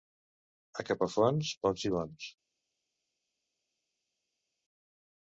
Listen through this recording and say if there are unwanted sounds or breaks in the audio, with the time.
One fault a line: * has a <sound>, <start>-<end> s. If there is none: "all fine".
all fine